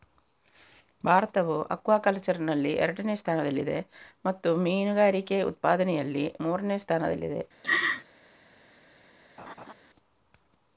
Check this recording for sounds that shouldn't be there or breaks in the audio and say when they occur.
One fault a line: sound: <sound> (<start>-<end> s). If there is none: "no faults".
sound: laugh (7.6-8.0 s)
sound: laugh (9.4-9.7 s)